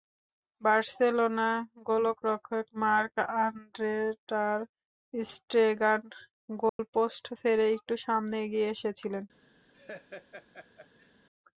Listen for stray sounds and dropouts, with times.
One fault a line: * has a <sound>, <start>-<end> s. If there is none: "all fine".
* has a dropout, 6.7-6.8 s
* has a laugh, 9.7-11.1 s